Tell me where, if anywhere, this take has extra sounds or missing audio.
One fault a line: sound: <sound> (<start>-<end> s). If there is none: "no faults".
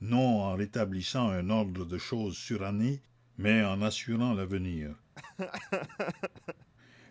sound: laugh (5.2-6.7 s)